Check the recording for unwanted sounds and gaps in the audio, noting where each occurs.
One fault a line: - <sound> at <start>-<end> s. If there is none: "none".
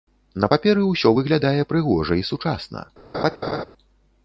- laugh at 3.1-3.6 s